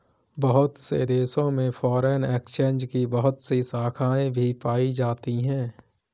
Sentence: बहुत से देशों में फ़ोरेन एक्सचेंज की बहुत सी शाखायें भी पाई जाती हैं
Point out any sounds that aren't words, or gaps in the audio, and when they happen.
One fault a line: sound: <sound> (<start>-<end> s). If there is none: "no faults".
no faults